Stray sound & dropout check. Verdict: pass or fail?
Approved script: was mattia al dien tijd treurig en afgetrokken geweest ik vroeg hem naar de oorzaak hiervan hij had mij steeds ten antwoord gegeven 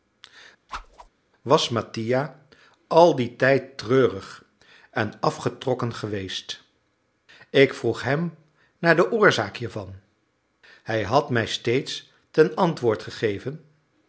fail